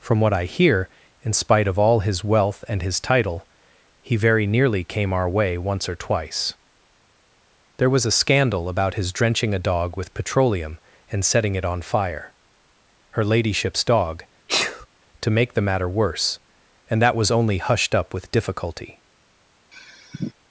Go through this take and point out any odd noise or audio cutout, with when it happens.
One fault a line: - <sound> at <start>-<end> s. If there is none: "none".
- sneeze at 14.5-14.9 s
- sigh at 19.7-20.3 s